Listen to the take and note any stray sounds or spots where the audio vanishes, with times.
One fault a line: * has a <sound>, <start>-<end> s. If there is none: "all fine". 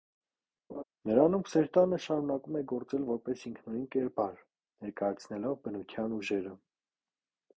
* has a laugh, 0.7-0.8 s